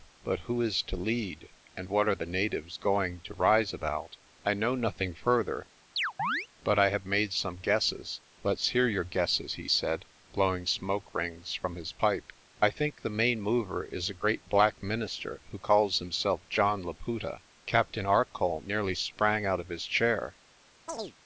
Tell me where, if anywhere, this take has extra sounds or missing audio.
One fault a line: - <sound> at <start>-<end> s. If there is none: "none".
- chirp at 6.0-6.5 s
- chirp at 20.9-21.1 s